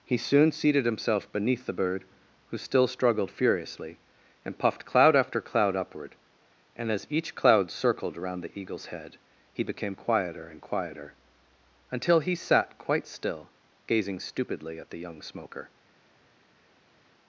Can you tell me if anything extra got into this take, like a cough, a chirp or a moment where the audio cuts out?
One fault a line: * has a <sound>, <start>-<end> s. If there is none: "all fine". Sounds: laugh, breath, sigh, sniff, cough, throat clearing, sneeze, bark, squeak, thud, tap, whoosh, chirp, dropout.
all fine